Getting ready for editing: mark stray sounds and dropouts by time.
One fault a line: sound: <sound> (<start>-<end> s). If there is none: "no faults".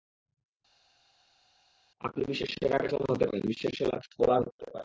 no faults